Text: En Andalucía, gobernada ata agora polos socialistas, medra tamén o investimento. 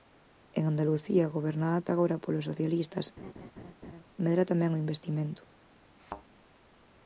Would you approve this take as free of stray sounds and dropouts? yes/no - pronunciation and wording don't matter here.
no